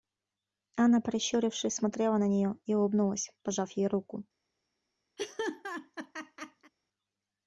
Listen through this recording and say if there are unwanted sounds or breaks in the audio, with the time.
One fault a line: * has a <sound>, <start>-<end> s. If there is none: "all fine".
* has a laugh, 5.2-6.7 s